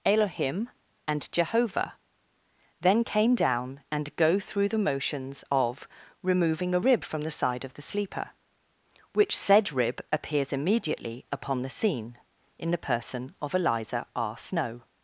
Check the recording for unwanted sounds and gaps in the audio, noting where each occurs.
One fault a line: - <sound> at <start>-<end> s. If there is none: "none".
none